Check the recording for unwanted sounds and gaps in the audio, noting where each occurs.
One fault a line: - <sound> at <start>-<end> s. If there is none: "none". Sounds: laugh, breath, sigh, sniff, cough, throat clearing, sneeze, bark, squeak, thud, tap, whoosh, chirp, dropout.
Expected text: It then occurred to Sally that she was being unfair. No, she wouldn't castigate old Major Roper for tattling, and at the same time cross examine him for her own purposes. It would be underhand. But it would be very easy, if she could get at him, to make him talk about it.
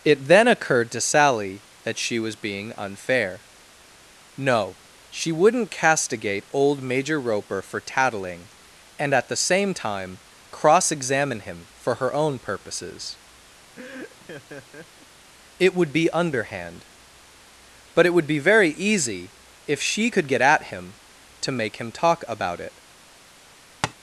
- laugh at 13.8-15.1 s
- tap at 23.8-23.9 s